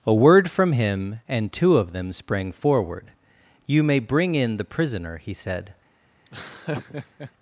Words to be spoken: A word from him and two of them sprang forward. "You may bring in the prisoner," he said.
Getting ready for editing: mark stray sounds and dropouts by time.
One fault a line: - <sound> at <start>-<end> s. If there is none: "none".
- laugh at 6.2-7.3 s